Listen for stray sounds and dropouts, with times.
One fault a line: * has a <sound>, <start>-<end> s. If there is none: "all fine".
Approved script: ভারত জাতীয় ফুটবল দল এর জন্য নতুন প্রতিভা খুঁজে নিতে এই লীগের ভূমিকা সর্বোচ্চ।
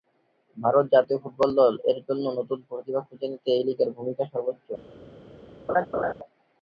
* has a laugh, 5.7-6.1 s